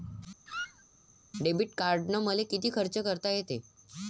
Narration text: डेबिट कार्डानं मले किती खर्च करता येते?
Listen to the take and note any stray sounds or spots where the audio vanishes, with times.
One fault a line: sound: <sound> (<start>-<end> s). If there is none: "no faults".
sound: squeak (0.5-0.8 s)